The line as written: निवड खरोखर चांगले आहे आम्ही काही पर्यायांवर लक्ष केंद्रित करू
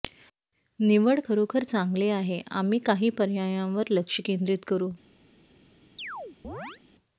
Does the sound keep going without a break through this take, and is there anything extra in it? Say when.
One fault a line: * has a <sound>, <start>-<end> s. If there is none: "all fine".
* has a chirp, 6.0-6.8 s